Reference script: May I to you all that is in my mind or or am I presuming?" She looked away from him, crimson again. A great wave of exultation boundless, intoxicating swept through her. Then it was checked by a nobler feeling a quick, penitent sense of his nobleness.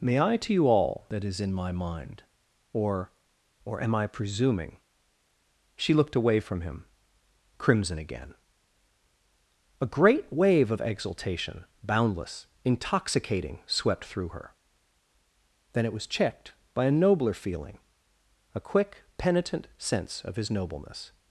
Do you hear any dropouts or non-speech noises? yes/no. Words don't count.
no